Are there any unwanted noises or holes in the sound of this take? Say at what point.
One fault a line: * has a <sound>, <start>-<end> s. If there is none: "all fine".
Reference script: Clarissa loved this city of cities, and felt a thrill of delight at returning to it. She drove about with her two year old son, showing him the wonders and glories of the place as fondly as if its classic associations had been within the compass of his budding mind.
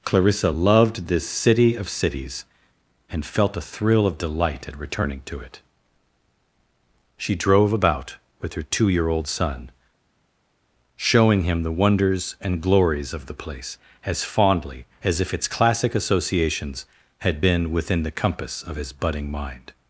all fine